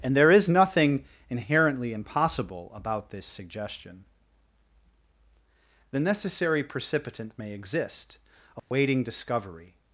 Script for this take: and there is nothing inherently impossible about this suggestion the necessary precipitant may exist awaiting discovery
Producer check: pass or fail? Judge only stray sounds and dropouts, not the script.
fail